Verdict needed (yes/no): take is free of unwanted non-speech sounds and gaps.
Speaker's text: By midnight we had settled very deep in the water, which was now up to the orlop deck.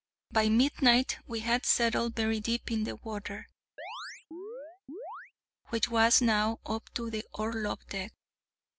no